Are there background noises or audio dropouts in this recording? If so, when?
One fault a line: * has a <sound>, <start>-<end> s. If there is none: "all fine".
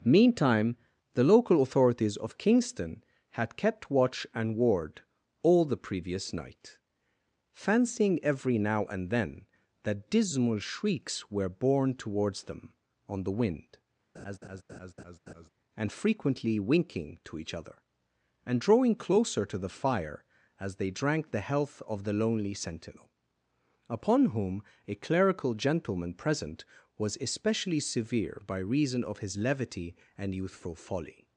* has a laugh, 14.1-15.5 s